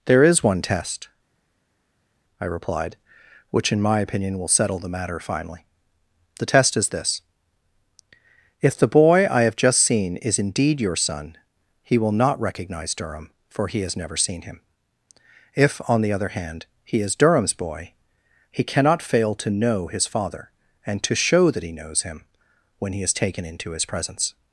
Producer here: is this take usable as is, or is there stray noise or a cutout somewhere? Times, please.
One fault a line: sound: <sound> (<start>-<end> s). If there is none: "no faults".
no faults